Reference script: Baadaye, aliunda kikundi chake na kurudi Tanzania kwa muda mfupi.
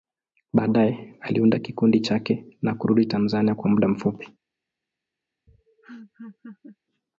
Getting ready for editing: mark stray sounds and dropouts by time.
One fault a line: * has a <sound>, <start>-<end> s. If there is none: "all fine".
* has a laugh, 5.5-6.8 s